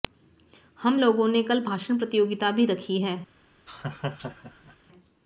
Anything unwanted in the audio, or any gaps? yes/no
yes